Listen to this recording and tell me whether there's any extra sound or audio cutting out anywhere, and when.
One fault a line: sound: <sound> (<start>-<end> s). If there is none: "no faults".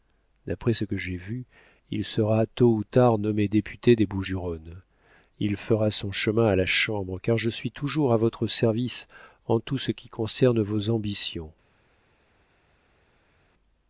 no faults